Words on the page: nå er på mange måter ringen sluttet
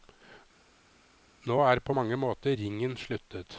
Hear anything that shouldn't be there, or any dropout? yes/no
no